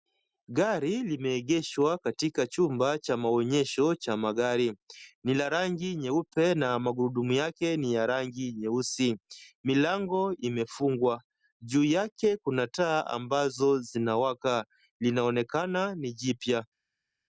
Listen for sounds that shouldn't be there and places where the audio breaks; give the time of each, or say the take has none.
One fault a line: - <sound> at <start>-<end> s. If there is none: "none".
none